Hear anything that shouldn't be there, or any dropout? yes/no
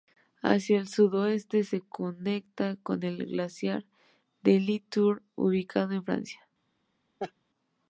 yes